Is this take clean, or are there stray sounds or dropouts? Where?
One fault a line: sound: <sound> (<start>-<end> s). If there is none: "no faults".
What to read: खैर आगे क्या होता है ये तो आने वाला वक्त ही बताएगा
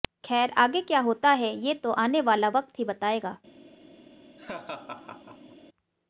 sound: laugh (4.4-5.6 s)